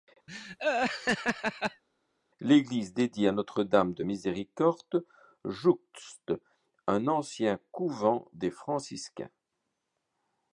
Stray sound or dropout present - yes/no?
yes